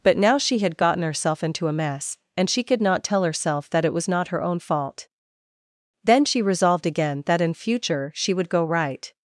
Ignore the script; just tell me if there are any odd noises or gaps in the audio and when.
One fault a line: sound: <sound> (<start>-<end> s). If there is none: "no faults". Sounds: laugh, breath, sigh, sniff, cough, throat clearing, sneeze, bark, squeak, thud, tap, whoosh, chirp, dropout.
no faults